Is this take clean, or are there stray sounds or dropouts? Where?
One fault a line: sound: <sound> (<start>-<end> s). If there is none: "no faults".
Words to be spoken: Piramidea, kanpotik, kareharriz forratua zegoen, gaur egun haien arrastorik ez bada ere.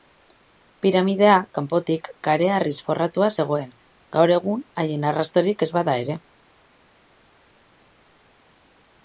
no faults